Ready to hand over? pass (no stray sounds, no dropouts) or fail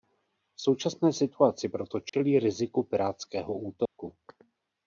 fail